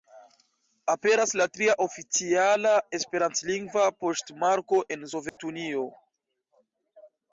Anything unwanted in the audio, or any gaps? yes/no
yes